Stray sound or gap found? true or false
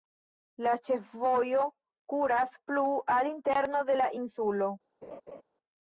true